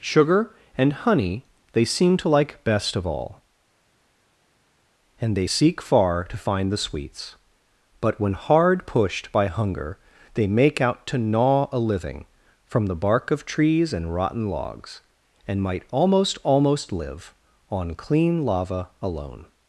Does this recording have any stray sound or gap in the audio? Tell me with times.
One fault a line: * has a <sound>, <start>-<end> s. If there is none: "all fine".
all fine